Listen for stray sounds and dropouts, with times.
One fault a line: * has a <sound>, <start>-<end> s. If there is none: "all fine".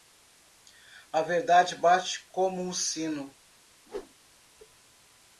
* has a whoosh, 3.9-4.1 s